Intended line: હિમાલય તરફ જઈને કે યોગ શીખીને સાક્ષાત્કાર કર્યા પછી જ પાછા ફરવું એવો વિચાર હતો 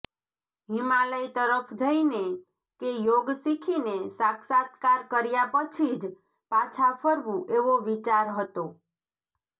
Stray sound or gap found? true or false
false